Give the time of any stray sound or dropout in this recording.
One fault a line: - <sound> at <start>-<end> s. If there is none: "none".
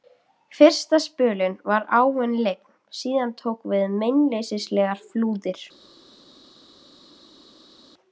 none